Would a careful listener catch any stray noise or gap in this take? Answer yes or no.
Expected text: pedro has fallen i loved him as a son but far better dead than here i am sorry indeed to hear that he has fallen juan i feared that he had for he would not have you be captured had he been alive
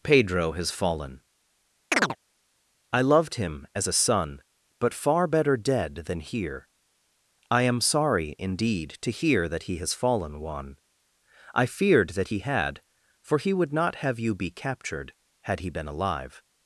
yes